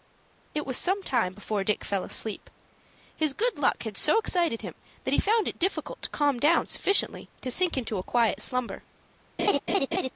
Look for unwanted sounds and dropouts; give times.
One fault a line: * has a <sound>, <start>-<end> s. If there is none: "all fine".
* has a laugh, 9.4-10.1 s